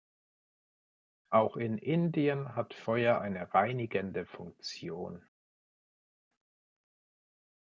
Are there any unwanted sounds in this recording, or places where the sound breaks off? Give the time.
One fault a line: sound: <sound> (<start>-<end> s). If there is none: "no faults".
no faults